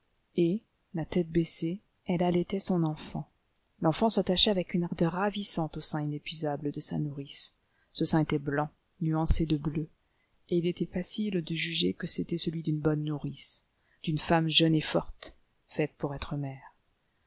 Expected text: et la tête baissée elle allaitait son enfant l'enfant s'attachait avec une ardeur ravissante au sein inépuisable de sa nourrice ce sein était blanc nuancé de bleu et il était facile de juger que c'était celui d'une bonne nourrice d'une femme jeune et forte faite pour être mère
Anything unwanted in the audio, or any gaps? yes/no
no